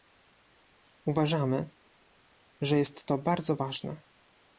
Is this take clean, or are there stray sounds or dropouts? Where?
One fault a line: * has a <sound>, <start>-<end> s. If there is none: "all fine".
all fine